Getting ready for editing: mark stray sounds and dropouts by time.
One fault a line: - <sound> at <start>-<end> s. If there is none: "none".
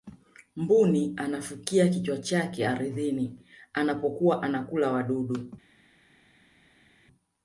none